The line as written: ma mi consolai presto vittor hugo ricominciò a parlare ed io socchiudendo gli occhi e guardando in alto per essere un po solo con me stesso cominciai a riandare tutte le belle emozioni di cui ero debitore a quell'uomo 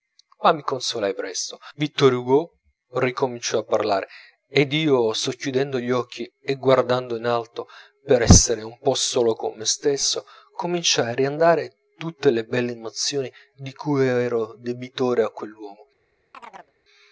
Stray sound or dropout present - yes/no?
yes